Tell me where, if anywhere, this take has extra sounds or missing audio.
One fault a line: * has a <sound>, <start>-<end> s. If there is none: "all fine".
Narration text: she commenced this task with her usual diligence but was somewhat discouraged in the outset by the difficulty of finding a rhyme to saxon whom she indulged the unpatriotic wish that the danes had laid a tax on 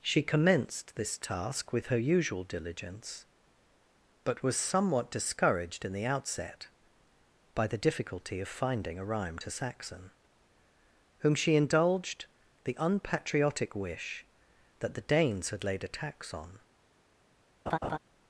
* has a laugh, 17.7-18.0 s